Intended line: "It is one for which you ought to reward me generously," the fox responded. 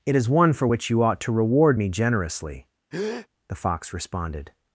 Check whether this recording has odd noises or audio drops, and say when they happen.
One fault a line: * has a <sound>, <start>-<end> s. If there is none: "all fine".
* has a breath, 2.9-3.3 s